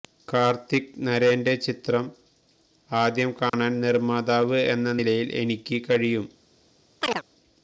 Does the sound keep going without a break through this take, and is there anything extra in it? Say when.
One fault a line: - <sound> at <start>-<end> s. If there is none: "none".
- dropout at 3.5-3.5 s
- chirp at 7.0-7.2 s